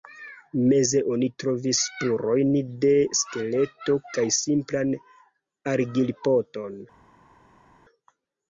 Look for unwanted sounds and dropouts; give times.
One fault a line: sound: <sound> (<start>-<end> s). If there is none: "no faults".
no faults